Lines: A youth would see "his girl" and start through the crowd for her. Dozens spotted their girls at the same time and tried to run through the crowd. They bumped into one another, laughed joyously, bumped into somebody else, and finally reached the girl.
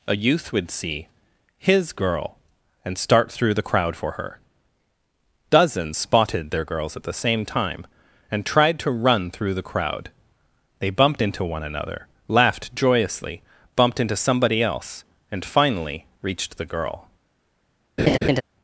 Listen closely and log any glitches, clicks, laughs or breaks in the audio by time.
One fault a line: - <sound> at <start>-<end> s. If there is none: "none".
- laugh at 18.0-18.4 s